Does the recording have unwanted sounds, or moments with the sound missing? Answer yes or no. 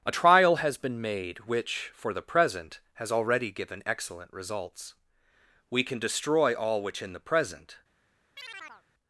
yes